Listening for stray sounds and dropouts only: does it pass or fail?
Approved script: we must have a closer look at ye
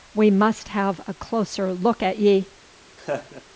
fail